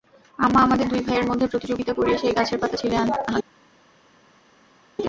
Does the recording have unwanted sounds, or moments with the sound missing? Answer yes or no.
no